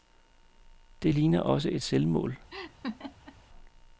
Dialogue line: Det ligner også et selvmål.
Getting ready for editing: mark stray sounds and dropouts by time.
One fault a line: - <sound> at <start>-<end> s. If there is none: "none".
- laugh at 2.5-3.4 s